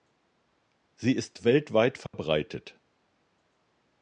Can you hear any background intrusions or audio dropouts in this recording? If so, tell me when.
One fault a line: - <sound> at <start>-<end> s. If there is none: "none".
- dropout at 2.1-2.1 s